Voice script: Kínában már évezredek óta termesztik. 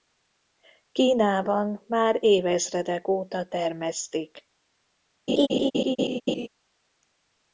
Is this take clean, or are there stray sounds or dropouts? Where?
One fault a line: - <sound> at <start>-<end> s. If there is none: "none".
- laugh at 5.3-6.5 s